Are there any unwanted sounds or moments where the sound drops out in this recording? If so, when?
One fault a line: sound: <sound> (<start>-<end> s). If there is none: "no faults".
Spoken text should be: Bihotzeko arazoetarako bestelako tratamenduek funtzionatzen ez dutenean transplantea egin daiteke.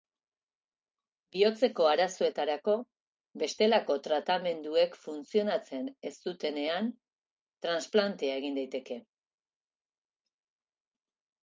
no faults